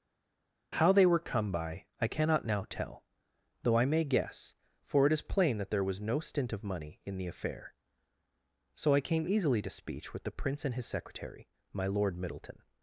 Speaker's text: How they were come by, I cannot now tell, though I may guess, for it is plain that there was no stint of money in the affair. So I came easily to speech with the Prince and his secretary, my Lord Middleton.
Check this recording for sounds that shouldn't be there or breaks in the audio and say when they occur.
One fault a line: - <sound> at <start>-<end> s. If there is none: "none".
none